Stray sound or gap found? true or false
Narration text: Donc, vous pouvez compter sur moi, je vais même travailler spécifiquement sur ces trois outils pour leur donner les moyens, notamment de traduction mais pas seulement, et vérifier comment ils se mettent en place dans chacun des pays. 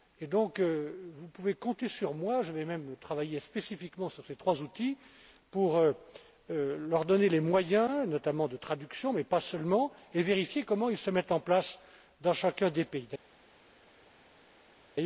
false